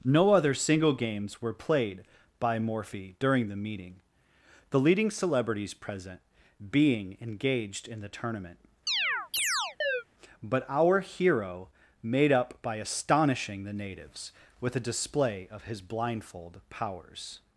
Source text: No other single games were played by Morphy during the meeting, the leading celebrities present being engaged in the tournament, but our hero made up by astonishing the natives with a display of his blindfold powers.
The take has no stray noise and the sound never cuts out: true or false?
false